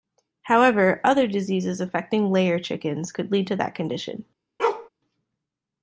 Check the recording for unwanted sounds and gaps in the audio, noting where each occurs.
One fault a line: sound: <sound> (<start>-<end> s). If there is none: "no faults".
sound: bark (4.6-4.9 s)